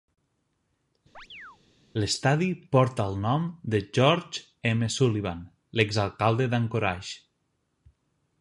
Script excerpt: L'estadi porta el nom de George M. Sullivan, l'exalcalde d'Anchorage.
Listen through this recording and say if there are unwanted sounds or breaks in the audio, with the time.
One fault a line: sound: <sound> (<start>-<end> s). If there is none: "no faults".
sound: chirp (1.1-1.6 s)